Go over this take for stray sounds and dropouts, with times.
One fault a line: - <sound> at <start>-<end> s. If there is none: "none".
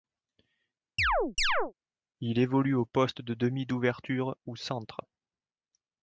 - chirp at 1.0-1.7 s